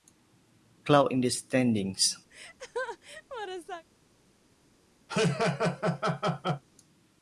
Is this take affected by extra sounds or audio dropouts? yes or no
yes